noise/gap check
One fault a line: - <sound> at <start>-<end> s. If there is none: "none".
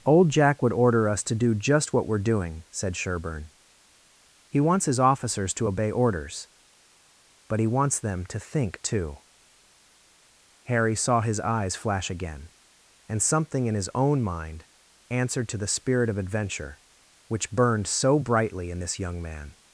none